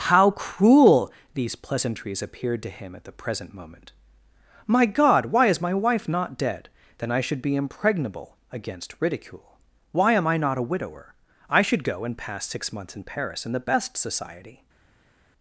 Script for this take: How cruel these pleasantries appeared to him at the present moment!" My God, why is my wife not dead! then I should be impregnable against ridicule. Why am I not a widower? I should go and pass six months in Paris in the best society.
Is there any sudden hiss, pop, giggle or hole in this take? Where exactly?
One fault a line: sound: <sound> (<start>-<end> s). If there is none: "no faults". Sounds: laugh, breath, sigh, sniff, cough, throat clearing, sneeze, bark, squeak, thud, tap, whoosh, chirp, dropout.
no faults